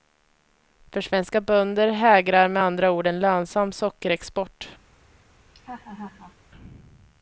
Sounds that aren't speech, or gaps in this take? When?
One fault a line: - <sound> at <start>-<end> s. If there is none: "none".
- laugh at 5.5-6.4 s